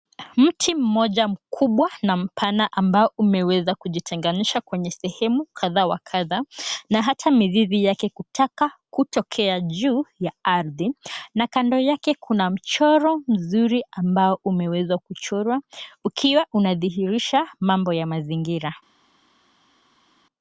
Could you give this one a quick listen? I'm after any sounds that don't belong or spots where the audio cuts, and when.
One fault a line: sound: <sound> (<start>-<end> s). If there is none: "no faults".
no faults